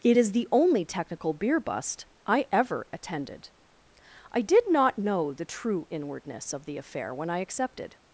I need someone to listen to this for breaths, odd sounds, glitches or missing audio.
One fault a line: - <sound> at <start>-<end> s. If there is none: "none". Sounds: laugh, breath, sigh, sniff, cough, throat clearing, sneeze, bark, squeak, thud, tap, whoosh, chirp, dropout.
none